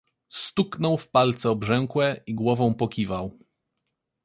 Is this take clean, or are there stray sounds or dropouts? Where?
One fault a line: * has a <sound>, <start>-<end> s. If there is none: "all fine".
all fine